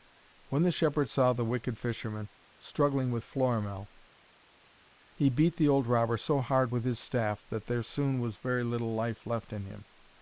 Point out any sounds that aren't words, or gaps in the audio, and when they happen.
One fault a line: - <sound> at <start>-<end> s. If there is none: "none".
none